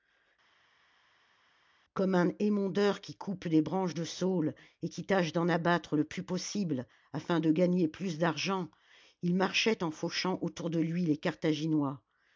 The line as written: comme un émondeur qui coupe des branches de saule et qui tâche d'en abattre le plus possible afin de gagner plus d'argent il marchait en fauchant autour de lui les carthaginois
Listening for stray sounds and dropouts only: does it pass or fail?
pass